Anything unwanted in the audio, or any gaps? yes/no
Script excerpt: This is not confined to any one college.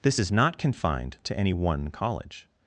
no